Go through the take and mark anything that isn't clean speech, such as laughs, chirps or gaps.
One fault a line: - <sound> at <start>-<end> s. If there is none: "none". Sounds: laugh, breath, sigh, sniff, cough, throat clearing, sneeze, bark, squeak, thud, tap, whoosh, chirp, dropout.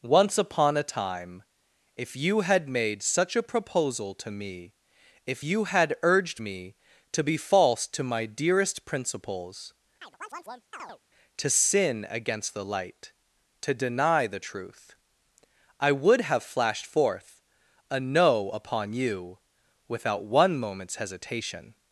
- chirp at 10.0-11.0 s